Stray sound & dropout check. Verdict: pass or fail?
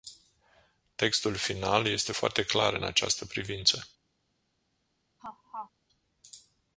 fail